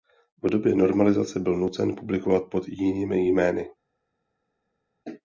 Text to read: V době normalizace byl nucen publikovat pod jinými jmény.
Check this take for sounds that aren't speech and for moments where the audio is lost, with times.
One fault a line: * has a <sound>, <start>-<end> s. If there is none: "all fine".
all fine